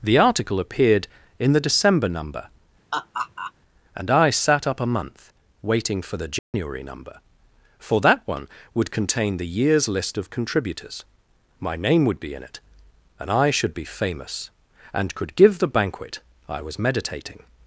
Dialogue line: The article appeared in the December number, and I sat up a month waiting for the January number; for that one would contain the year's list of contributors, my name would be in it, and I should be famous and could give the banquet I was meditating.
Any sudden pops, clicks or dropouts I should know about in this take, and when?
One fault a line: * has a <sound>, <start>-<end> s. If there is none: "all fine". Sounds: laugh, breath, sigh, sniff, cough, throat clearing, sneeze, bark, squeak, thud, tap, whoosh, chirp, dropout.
* has a laugh, 2.9-3.5 s
* has a dropout, 6.4-6.5 s